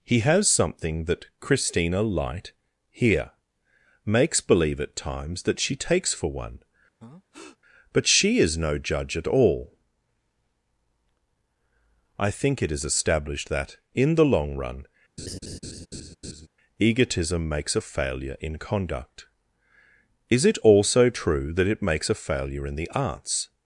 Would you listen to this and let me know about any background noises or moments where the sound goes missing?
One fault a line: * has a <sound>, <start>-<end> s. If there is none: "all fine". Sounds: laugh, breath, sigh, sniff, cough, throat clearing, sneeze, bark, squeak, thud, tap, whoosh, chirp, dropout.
* has a breath, 7.0-7.6 s
* has a laugh, 15.2-16.5 s